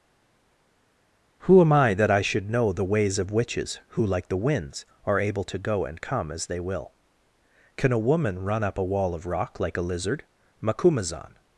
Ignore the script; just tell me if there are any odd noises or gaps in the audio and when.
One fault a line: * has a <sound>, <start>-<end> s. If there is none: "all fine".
all fine